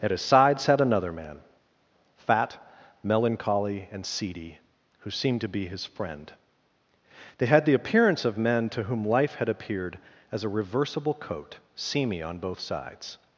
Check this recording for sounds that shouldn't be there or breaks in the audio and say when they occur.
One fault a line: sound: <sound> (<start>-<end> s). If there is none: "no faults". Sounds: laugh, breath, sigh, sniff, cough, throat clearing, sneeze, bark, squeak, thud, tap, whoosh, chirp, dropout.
no faults